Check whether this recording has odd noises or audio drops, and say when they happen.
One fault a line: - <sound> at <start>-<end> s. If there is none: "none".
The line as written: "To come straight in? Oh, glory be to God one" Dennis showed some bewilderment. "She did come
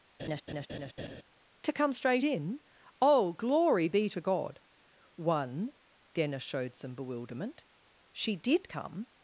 - laugh at 0.2-1.2 s